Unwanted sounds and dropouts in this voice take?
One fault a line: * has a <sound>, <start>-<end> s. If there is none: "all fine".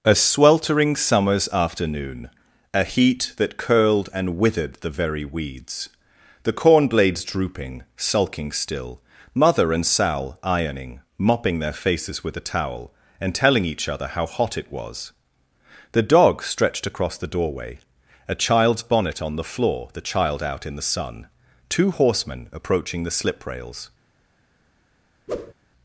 * has a whoosh, 25.3-25.5 s